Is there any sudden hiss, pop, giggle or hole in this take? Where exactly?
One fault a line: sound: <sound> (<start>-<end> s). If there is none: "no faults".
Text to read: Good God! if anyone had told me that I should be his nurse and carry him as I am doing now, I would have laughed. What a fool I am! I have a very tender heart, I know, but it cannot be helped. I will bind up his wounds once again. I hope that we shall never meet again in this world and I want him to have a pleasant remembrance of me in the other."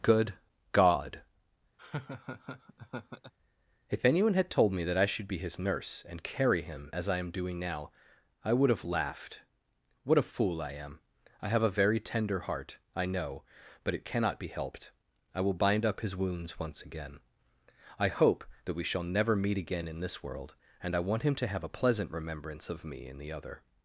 sound: laugh (1.8-3.3 s)